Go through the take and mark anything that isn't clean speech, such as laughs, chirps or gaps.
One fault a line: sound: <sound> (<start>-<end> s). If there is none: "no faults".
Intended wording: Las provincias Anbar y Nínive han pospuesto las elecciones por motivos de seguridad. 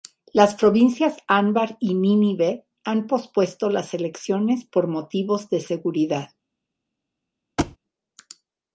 sound: thud (7.6-7.8 s)